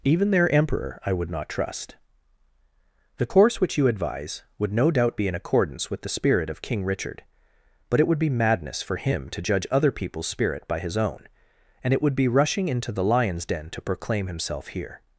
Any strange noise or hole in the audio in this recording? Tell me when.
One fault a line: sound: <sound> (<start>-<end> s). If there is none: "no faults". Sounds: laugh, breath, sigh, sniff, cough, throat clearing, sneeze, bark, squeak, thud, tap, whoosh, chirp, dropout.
no faults